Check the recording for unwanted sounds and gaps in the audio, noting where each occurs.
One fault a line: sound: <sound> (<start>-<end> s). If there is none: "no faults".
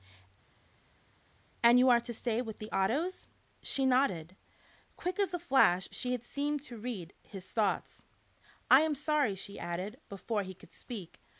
no faults